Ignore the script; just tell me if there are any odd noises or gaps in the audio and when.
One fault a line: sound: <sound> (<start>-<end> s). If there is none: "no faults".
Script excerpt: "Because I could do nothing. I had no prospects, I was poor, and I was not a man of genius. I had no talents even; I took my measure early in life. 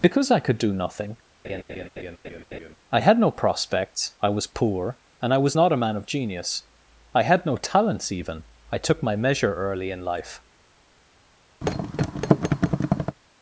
sound: laugh (1.4-2.8 s)
sound: thud (11.6-13.2 s)